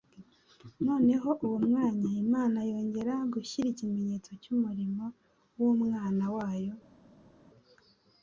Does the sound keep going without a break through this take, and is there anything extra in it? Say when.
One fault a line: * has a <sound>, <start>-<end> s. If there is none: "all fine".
all fine